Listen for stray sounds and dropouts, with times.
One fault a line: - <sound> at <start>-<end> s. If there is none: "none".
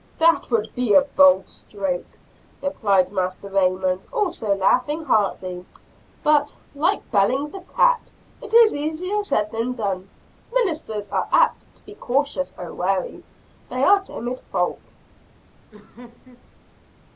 - laugh at 15.7-16.5 s